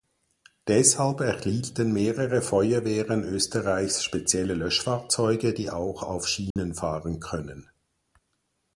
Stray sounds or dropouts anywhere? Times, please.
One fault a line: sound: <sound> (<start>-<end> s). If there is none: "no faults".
sound: dropout (6.5-6.6 s)